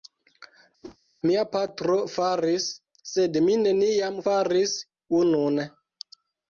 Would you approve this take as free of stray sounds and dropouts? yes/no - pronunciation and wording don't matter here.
no